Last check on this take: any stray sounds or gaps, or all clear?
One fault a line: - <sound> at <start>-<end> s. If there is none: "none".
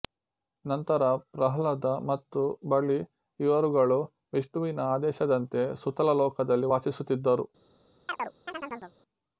- chirp at 8.1-9.0 s